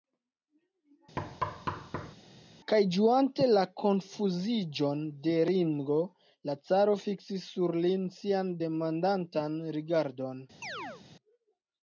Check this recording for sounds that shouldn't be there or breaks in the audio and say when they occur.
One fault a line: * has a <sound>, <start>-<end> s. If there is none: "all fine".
* has a thud, 1.2-2.1 s
* has a chirp, 10.6-11.0 s